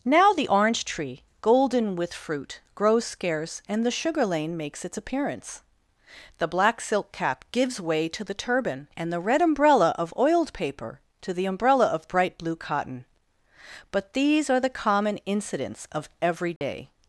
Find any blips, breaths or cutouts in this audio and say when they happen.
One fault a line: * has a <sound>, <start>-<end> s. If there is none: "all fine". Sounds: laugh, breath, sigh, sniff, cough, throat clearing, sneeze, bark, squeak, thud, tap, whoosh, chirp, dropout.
* has a dropout, 16.6-16.6 s